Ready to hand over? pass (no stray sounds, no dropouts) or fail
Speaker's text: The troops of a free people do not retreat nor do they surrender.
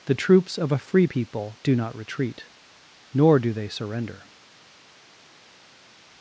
pass